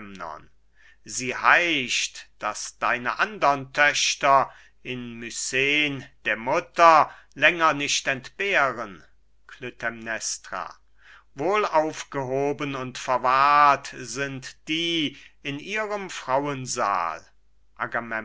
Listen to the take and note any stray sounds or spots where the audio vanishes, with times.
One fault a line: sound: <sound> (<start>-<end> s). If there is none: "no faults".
no faults